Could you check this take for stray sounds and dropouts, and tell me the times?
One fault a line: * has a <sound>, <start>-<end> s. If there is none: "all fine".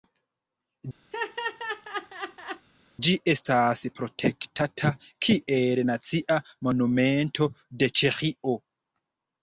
* has a laugh, 1.1-2.7 s